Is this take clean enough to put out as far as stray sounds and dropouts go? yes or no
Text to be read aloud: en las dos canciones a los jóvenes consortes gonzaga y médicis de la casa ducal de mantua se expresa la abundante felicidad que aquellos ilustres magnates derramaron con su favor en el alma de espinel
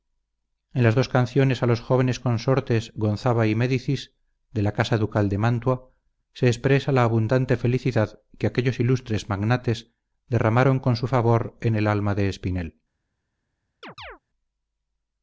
no